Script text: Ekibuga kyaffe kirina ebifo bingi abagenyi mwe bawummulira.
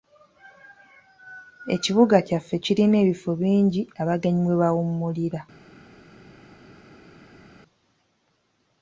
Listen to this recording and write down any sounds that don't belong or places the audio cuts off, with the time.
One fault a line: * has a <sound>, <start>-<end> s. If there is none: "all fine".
all fine